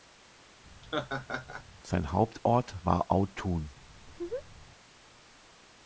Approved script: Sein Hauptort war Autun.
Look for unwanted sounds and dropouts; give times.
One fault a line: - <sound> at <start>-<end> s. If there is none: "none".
- laugh at 0.8-1.7 s
- laugh at 4.0-4.7 s